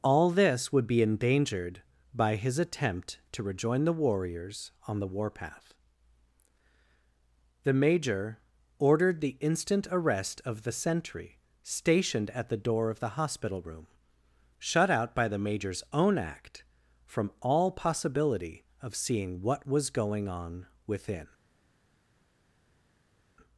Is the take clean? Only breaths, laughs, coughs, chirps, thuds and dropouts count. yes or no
yes